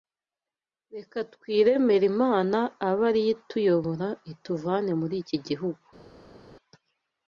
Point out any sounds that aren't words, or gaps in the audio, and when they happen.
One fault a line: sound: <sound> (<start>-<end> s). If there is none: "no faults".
no faults